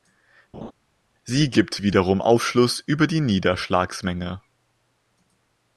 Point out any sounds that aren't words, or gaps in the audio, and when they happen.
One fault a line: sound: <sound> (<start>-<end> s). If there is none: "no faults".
sound: laugh (0.5-0.7 s)